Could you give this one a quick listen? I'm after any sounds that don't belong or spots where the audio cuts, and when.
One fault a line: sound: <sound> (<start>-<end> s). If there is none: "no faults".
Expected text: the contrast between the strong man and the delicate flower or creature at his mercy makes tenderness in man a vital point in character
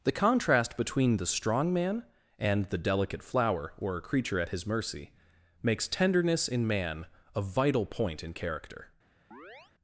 sound: chirp (9.3-9.7 s)